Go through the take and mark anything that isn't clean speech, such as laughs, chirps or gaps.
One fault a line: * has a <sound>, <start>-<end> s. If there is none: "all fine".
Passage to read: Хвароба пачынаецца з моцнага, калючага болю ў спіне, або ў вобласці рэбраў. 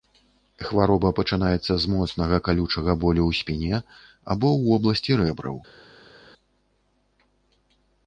all fine